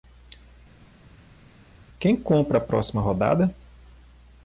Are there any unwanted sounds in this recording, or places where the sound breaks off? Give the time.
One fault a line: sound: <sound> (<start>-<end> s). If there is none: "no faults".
no faults